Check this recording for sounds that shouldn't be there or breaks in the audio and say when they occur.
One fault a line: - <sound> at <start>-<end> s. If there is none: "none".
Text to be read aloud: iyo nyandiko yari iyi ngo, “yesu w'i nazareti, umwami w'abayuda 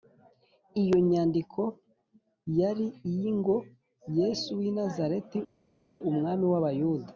none